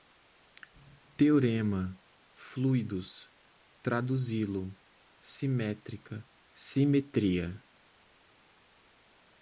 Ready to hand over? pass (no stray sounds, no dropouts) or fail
pass